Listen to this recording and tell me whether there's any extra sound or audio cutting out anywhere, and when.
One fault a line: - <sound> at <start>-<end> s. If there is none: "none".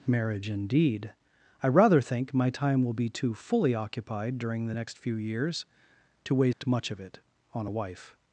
- dropout at 6.5-6.6 s